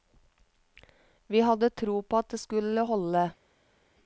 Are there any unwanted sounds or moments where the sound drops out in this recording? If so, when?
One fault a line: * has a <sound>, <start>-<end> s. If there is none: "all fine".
all fine